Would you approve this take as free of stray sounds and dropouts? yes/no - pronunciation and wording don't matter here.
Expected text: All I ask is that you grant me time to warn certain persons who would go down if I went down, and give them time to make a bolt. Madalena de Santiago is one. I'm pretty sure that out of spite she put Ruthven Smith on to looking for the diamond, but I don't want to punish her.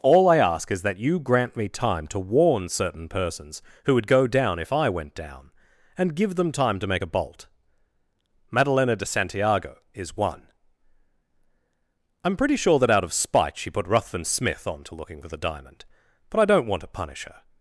yes